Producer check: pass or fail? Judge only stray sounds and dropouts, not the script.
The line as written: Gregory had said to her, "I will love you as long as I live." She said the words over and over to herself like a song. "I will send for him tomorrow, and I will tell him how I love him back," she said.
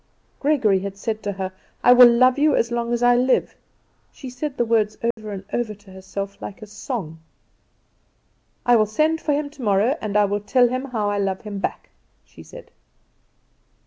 fail